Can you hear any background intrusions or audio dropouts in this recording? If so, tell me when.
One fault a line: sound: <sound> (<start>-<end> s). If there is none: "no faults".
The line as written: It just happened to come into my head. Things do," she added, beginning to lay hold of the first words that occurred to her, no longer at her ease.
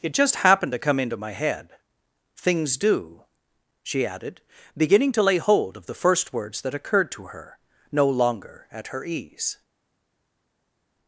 no faults